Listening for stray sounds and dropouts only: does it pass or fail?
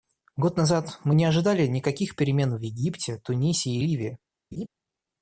fail